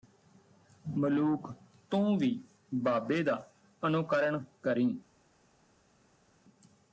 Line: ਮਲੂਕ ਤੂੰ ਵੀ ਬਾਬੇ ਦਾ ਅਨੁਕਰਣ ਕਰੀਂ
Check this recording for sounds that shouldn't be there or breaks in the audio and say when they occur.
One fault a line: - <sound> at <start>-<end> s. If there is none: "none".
none